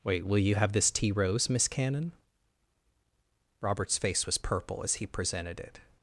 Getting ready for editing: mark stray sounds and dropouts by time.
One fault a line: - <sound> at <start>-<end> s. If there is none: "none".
none